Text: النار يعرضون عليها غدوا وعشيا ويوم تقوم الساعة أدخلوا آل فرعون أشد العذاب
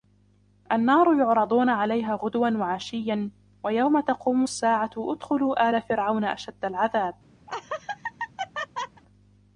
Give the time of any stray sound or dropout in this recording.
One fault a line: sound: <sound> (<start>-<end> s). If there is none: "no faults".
sound: laugh (7.5-9.0 s)